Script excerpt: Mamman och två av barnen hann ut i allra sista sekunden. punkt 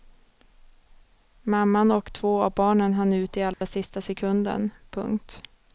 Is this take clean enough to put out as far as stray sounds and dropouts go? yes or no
no